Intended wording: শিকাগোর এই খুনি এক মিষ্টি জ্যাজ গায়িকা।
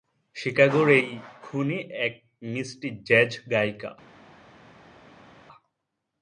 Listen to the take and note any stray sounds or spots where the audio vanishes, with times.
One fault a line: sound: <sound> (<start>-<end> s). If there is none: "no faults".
no faults